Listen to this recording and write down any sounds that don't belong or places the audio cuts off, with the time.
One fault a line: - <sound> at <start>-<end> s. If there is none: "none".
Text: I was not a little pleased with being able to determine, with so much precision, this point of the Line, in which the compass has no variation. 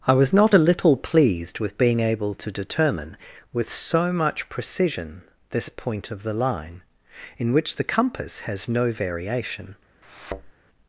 - thud at 10.0-10.5 s